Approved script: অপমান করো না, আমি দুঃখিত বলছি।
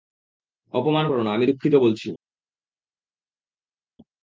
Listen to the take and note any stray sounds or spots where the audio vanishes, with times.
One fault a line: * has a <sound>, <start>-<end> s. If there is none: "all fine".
all fine